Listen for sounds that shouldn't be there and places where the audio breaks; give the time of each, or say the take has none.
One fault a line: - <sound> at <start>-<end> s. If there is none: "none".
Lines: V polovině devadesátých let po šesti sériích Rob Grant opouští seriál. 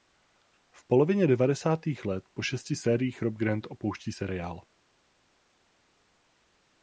none